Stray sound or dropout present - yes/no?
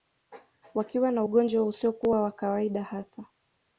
no